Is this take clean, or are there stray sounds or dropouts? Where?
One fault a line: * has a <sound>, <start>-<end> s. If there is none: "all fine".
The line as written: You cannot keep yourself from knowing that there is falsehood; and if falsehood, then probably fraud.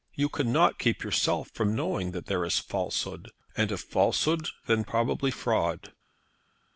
all fine